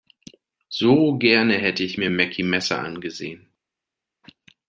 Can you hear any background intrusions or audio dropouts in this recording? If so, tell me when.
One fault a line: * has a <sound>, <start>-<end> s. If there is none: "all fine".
all fine